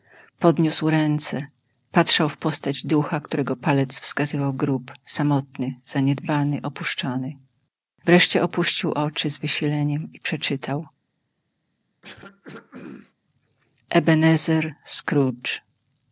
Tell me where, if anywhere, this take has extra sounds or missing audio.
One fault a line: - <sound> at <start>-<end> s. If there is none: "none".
- throat clearing at 12.0-13.1 s